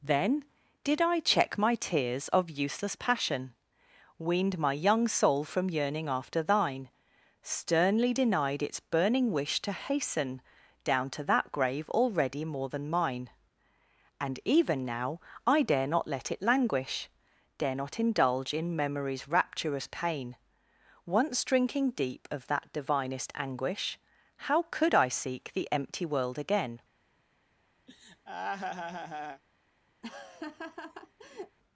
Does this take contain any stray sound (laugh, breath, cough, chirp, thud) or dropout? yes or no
yes